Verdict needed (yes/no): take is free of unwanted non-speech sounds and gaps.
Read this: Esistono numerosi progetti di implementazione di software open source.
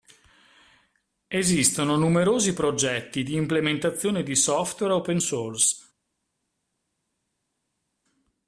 yes